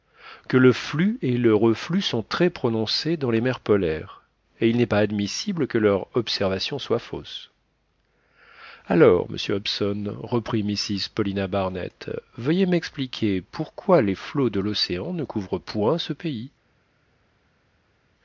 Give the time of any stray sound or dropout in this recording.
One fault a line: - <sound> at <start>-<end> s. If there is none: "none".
none